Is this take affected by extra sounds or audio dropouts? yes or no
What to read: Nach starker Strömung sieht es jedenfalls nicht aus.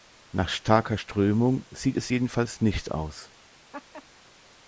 yes